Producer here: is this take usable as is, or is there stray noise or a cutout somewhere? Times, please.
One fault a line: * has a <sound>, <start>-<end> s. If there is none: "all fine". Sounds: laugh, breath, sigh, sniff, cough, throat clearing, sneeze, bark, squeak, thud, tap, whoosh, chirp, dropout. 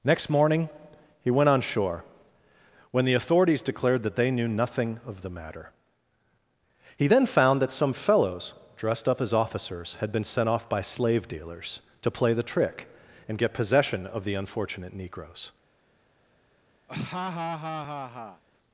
* has a laugh, 16.9-18.4 s